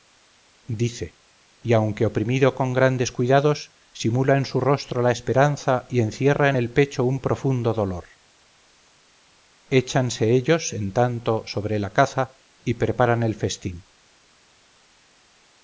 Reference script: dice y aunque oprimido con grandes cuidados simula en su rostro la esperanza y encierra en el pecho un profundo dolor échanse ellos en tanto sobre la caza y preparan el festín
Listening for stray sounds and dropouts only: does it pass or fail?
pass